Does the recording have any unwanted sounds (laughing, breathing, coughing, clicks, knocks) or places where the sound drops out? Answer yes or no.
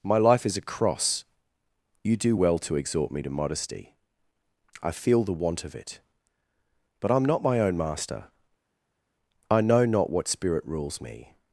no